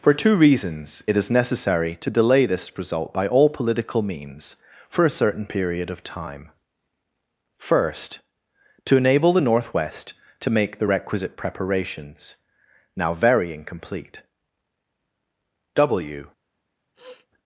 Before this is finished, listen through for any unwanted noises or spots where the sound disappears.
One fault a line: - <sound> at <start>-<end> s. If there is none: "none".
- sniff at 16.9-17.3 s